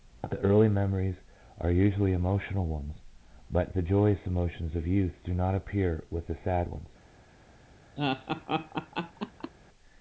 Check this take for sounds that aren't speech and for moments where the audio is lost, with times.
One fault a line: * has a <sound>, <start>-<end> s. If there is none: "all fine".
* has a laugh, 8.0-9.5 s